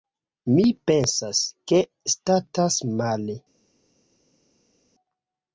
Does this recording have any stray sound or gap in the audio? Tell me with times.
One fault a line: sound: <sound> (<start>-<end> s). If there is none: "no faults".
no faults